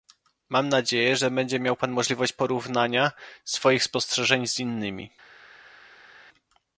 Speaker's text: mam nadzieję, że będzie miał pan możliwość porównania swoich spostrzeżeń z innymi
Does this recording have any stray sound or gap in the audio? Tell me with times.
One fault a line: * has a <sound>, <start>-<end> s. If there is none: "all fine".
all fine